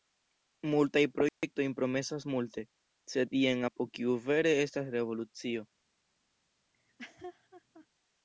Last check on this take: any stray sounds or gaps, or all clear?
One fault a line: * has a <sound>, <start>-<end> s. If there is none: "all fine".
* has a dropout, 1.3-1.4 s
* has a laugh, 6.7-7.9 s